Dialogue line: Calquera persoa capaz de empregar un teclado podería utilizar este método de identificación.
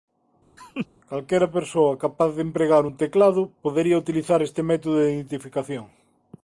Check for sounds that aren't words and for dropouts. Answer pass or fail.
fail